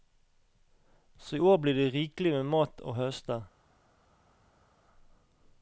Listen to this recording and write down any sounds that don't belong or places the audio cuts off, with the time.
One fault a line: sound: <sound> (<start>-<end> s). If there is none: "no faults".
no faults